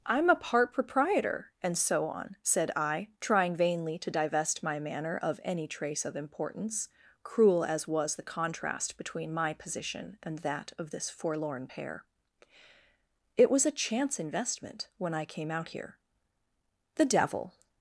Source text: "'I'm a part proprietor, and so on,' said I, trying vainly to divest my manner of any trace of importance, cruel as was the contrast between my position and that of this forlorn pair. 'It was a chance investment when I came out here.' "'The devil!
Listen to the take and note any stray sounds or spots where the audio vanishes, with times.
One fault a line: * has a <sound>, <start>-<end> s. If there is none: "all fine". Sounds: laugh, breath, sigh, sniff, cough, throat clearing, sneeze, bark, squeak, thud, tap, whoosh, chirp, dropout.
all fine